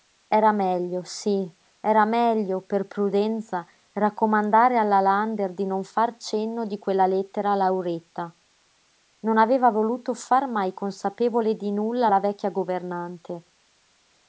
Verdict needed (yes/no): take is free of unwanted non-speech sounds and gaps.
yes